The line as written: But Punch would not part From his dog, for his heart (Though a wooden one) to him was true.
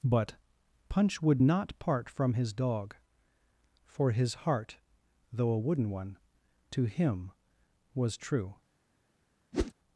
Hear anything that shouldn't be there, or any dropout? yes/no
yes